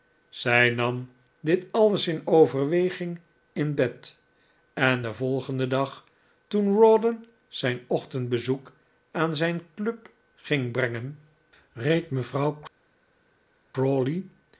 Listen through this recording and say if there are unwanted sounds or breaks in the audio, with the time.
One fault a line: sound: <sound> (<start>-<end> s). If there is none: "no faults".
no faults